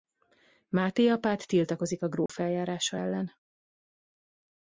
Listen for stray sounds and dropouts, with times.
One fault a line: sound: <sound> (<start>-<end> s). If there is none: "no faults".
sound: dropout (2.3-2.3 s)